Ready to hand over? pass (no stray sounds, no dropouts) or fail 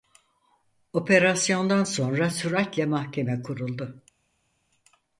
pass